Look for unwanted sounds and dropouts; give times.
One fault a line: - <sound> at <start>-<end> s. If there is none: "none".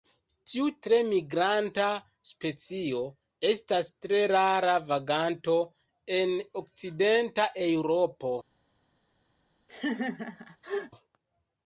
- laugh at 9.7-10.9 s